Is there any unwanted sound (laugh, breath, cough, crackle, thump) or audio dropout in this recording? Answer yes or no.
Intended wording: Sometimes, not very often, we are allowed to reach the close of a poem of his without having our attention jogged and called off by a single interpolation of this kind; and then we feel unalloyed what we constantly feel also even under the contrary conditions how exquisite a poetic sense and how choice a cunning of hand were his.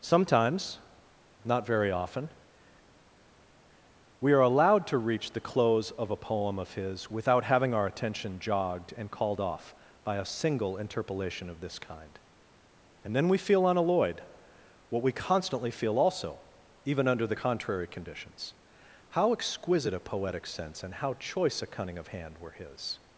no